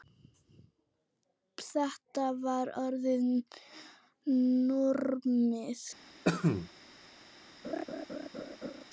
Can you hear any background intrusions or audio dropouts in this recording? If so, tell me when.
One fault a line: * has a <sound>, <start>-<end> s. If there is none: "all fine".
* has a cough, 6.3-6.7 s
* has a laugh, 7.6-8.9 s